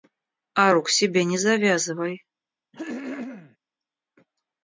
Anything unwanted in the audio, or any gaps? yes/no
yes